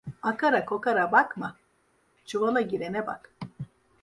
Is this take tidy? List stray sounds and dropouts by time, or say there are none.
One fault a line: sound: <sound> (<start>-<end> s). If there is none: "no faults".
no faults